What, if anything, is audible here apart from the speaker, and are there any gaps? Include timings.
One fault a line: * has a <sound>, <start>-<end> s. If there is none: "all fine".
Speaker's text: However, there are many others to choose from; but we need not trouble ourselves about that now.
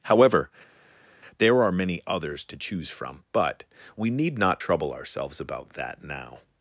all fine